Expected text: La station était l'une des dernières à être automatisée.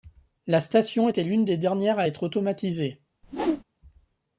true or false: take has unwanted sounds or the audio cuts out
true